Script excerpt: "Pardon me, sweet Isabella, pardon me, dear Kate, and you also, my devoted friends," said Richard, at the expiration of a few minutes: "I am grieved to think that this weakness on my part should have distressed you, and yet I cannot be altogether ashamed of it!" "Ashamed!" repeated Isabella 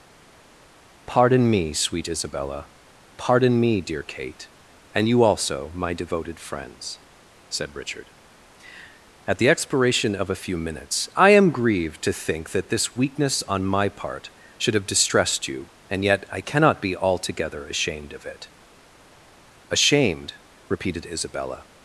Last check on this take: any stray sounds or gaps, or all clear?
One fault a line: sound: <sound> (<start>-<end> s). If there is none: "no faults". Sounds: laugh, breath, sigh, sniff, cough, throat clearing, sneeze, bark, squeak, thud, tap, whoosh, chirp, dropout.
no faults